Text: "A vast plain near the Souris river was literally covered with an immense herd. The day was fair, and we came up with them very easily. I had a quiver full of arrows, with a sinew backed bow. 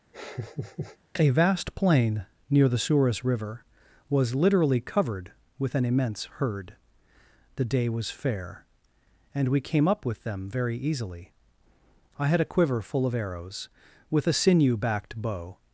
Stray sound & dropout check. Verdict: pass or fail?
fail